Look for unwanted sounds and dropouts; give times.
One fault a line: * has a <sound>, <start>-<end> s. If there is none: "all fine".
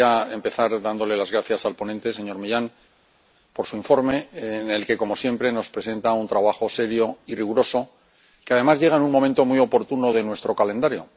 all fine